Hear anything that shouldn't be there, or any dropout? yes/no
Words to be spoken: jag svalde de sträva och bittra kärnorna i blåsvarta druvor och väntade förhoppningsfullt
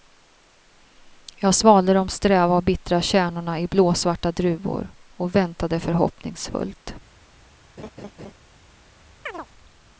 yes